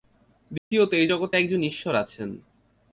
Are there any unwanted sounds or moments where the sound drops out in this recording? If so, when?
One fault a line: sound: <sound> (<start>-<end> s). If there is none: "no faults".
sound: dropout (0.6-0.7 s)